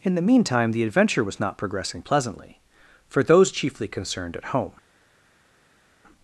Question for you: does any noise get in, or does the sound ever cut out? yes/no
no